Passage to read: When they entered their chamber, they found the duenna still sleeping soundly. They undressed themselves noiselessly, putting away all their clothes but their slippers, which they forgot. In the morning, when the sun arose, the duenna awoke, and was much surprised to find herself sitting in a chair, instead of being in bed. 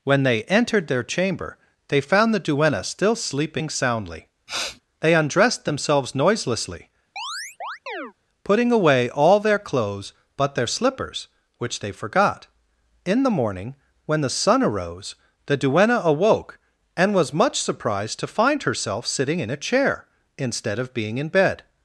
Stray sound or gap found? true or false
true